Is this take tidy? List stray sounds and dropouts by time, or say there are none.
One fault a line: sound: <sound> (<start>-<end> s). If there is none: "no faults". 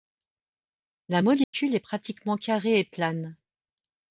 sound: dropout (1.4-1.5 s)